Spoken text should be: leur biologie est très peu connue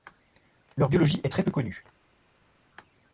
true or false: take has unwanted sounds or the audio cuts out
false